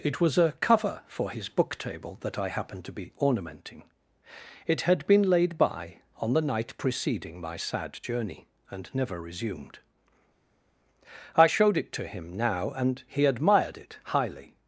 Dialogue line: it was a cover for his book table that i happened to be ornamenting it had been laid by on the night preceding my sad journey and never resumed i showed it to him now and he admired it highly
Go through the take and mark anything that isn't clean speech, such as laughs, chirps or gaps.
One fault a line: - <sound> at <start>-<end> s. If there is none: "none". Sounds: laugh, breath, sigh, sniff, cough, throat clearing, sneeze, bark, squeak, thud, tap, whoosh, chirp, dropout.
none